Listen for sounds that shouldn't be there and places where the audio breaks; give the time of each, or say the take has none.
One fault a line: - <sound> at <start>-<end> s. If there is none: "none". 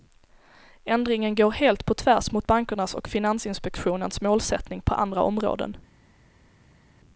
none